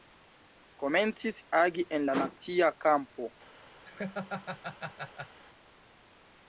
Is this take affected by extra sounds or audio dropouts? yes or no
yes